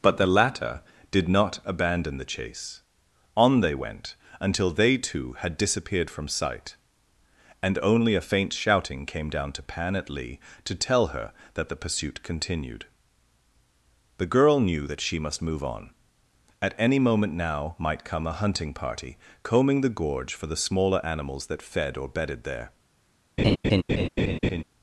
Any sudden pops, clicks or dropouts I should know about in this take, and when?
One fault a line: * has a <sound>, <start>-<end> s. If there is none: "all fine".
* has a laugh, 23.4-24.6 s